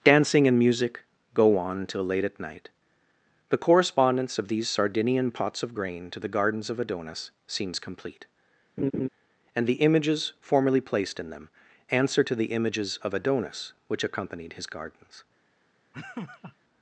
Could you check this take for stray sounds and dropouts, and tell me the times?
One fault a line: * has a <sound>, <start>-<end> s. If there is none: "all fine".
* has a laugh, 8.8-9.1 s
* has a laugh, 15.9-16.6 s